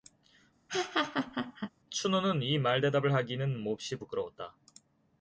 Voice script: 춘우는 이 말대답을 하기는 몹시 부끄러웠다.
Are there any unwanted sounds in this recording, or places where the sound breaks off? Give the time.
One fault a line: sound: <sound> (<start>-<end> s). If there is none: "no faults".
sound: laugh (0.7-1.7 s)